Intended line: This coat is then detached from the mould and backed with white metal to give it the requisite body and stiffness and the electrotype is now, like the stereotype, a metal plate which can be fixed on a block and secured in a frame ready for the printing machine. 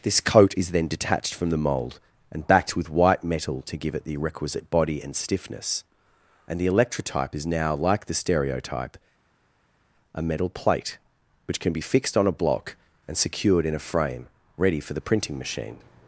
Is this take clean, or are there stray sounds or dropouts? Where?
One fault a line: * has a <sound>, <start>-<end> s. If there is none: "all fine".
all fine